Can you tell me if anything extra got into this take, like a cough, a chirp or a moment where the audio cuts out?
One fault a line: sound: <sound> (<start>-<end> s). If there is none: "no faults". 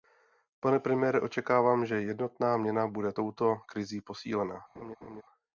sound: laugh (4.8-5.2 s)